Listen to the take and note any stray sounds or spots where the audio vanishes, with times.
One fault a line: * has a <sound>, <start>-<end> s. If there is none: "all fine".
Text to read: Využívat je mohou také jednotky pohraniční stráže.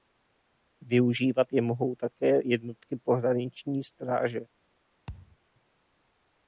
* has a thud, 5.1-5.4 s